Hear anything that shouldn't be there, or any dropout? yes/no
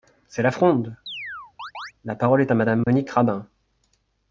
yes